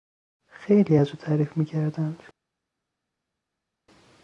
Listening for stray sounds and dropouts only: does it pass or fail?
pass